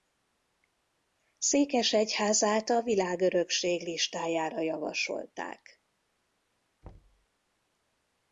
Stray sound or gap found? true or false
true